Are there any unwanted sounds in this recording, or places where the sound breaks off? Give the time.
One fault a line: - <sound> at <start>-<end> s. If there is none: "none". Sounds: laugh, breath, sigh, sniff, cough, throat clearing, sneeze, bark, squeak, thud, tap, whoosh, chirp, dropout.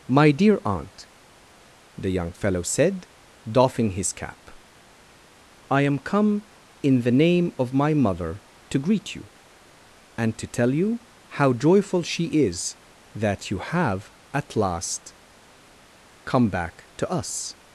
none